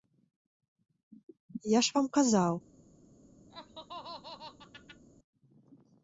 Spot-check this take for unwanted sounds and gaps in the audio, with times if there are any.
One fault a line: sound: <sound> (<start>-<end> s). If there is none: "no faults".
sound: laugh (3.5-5.0 s)